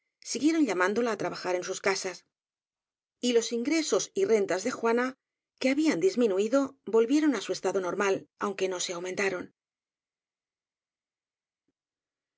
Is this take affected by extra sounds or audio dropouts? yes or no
no